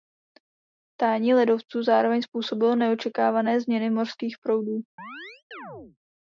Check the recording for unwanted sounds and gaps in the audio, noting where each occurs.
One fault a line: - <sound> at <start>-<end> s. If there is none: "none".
- chirp at 5.0-6.0 s